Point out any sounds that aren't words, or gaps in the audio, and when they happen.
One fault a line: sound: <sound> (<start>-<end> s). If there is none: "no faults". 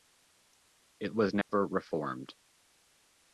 sound: dropout (1.4-1.5 s)